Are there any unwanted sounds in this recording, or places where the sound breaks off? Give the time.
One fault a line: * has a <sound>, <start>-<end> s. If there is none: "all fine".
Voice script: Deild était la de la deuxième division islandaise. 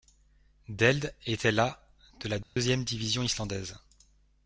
* has a dropout, 2.4-2.6 s